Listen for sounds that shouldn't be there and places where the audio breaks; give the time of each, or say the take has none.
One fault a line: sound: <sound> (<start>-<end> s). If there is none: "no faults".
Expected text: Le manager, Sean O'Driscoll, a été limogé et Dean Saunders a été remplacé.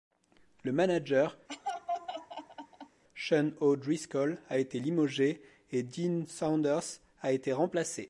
sound: laugh (1.5-3.0 s)